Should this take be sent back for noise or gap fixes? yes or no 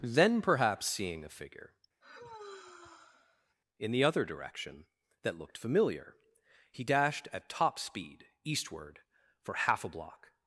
yes